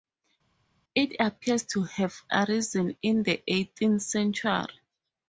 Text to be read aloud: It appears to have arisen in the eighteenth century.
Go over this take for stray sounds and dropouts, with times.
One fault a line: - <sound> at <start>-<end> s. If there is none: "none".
none